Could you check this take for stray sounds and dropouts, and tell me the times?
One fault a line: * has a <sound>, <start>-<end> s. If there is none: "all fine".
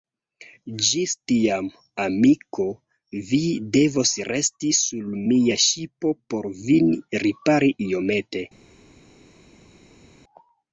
all fine